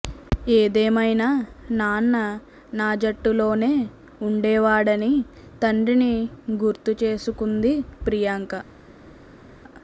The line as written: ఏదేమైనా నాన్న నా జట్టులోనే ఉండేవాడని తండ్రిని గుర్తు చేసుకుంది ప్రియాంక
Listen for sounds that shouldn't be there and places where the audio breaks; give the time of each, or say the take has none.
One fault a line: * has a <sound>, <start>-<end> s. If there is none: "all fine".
all fine